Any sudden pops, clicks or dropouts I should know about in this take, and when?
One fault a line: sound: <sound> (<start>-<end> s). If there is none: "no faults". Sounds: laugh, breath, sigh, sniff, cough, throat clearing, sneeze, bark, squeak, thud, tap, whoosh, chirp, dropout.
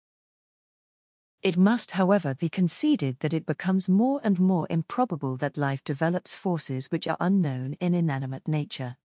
no faults